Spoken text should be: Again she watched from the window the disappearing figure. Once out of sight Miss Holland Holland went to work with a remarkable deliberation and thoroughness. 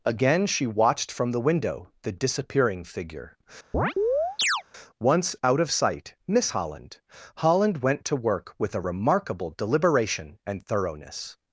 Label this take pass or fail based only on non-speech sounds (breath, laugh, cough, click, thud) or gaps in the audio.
fail